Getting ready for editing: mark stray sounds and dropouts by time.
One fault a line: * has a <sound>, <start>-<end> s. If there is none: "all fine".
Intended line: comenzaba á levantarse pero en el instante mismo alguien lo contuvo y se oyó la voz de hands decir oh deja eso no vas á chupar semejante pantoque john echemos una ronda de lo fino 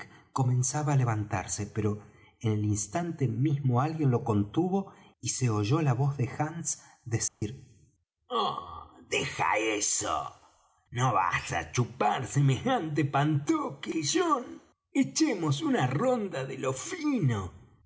* has a dropout, 7.3-7.4 s